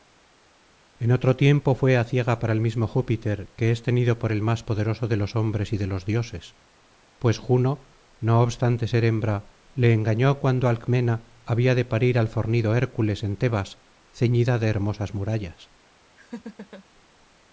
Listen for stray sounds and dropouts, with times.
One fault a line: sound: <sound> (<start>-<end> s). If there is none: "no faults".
sound: laugh (16.2-16.8 s)